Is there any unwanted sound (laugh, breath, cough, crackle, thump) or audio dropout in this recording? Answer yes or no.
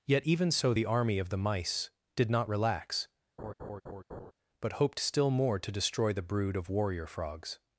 yes